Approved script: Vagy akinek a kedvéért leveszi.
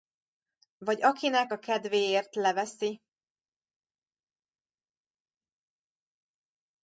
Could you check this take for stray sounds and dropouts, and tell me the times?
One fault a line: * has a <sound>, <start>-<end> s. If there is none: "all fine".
all fine